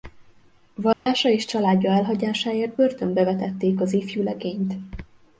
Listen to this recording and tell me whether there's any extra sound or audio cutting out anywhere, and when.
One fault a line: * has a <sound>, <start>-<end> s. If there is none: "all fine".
* has a dropout, 0.9-1.1 s